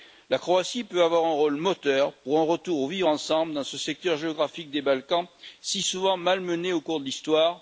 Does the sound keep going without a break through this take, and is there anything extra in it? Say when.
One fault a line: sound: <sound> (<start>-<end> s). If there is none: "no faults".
no faults